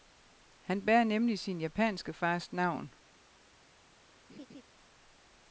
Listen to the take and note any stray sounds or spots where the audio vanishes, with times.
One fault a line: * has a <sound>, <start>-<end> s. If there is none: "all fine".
* has a laugh, 4.3-4.6 s